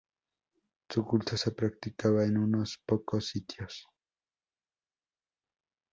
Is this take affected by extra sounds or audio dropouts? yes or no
no